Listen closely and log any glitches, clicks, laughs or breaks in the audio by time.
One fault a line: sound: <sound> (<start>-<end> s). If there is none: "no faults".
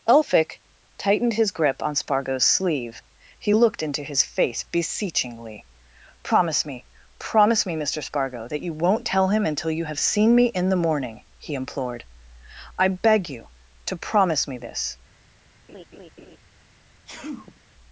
sound: laugh (15.7-16.4 s)
sound: sneeze (17.1-17.6 s)